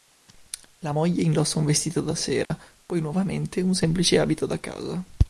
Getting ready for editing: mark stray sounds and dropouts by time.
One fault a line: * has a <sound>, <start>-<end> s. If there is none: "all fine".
* has a dropout, 2.5-2.5 s